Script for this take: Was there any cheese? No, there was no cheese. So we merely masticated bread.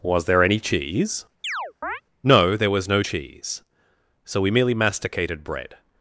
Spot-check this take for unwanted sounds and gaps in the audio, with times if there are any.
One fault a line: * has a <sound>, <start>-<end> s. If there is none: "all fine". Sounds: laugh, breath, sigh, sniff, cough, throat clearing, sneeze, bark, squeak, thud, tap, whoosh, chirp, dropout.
* has a chirp, 1.4-2.0 s